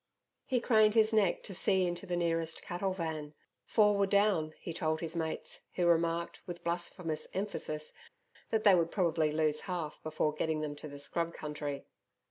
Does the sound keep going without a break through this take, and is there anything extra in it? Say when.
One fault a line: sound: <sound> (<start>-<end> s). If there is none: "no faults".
no faults